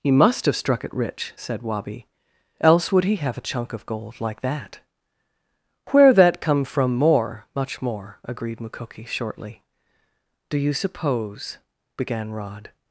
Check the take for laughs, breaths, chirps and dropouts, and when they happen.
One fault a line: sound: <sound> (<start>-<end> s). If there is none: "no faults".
no faults